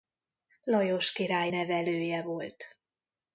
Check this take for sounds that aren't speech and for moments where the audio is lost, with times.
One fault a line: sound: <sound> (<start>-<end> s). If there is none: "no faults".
no faults